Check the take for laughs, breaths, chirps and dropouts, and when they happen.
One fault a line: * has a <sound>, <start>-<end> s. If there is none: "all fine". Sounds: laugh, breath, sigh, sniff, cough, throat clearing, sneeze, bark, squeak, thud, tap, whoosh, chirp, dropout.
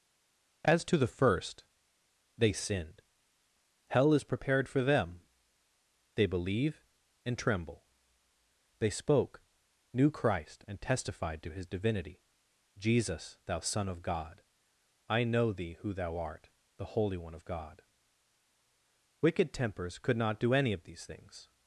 all fine